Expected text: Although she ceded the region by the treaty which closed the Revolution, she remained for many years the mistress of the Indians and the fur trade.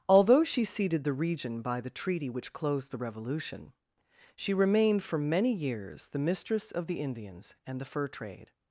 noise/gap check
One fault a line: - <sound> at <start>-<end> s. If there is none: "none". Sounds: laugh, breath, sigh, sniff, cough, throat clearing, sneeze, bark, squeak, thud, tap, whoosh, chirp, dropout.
none